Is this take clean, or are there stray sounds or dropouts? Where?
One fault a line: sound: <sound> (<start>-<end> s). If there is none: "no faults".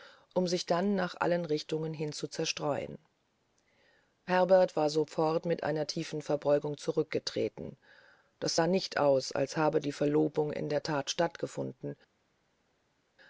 no faults